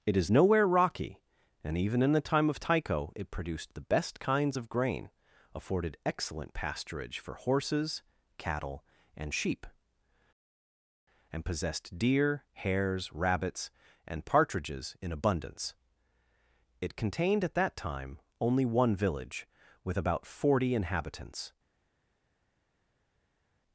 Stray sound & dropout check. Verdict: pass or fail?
pass